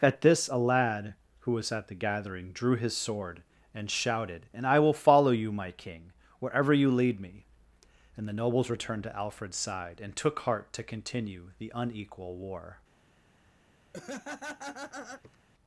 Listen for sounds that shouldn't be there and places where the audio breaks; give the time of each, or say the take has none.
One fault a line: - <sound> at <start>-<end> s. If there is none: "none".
- laugh at 13.9-15.4 s